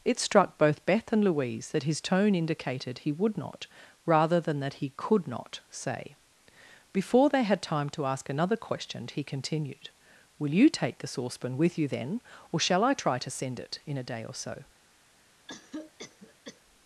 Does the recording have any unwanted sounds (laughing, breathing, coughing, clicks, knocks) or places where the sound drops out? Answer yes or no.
yes